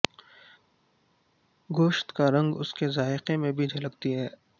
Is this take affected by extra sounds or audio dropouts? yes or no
no